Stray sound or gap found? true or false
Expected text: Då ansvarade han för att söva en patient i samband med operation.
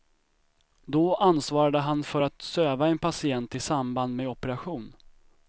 false